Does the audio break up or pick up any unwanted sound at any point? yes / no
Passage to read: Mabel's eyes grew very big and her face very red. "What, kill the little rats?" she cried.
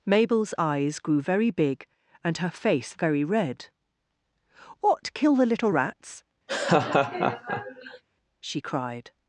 yes